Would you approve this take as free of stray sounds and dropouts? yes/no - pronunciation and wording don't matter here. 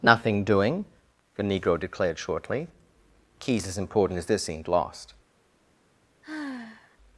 no